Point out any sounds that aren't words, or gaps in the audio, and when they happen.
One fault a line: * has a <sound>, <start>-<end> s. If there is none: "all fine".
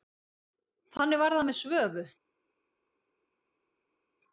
all fine